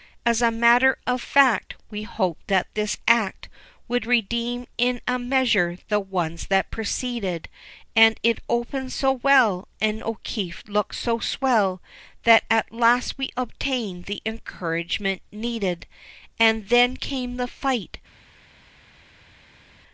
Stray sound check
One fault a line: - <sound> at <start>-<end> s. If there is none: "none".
none